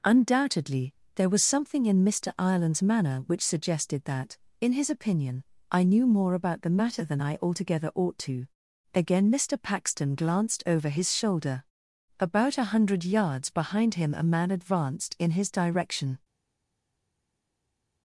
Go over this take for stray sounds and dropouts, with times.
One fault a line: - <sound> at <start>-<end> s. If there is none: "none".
none